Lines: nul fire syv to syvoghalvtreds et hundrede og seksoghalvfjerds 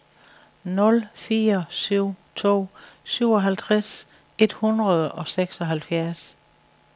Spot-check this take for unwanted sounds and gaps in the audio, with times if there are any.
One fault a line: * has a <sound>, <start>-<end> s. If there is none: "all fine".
all fine